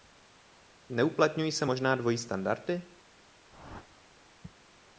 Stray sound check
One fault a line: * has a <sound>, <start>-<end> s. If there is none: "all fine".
* has a whoosh, 3.5-4.1 s